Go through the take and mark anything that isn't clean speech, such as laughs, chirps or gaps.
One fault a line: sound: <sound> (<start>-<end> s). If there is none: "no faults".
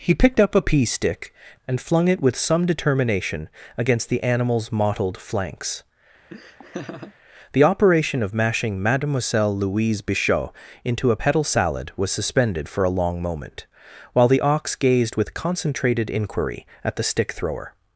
sound: laugh (6.3-7.1 s)